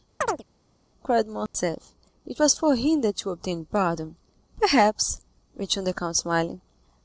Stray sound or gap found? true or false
true